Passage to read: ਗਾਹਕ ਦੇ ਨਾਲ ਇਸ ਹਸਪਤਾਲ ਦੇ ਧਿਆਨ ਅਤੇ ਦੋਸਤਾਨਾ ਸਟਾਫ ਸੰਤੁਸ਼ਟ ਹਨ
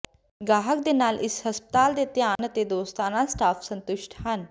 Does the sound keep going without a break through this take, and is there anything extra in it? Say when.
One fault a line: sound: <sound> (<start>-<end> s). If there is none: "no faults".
sound: dropout (2.4-2.4 s)